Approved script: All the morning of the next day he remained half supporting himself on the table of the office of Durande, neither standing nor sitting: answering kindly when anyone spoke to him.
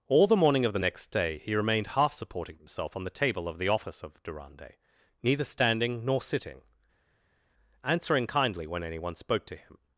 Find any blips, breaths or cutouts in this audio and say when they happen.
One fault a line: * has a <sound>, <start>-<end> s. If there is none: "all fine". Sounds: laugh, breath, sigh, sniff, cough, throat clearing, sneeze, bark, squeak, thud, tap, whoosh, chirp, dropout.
all fine